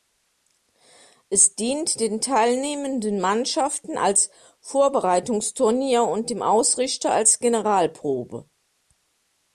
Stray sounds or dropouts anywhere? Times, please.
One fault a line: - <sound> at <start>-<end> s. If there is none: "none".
none